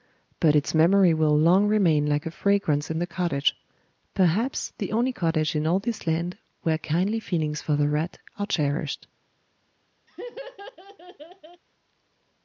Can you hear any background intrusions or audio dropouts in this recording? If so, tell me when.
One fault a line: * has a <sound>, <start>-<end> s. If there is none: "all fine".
* has a laugh, 10.1-11.6 s